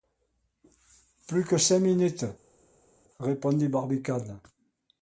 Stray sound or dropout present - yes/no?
no